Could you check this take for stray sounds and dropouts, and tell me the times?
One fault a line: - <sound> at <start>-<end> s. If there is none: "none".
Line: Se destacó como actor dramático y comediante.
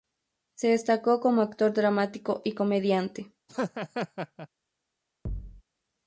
- laugh at 3.5-4.5 s
- thud at 5.2-5.6 s